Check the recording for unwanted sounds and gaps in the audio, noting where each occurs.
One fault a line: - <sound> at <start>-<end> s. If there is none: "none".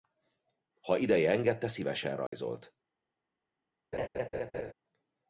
- dropout at 2.3-2.3 s
- laugh at 3.9-4.7 s